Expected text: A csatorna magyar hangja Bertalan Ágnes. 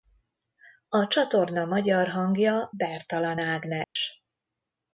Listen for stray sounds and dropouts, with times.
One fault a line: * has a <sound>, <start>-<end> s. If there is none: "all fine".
* has a dropout, 3.8-4.0 s